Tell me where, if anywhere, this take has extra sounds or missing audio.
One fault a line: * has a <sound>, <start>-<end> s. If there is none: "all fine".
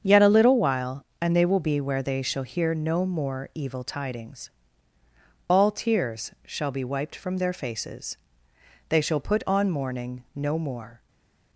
all fine